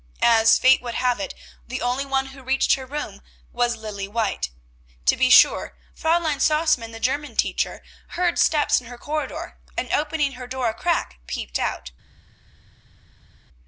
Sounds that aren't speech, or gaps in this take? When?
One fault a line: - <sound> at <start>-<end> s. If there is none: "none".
none